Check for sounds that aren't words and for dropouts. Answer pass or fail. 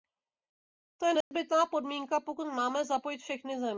fail